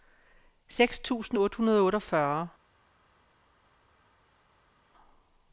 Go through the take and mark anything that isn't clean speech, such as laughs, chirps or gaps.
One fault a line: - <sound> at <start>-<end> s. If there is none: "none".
none